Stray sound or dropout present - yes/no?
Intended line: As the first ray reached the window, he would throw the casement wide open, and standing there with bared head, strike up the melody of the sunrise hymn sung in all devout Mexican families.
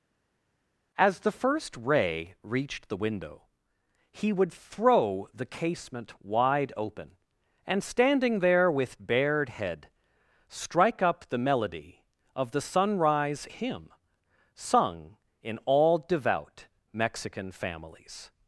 no